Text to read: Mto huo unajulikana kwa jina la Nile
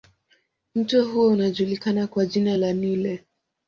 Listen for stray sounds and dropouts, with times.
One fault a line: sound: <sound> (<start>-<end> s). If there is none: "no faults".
no faults